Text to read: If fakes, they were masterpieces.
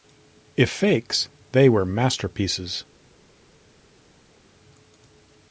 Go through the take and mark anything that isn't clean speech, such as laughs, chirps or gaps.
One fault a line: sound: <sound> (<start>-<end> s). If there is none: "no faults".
no faults